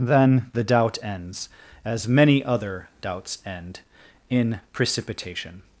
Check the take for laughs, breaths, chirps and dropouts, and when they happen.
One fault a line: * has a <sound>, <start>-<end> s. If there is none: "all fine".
all fine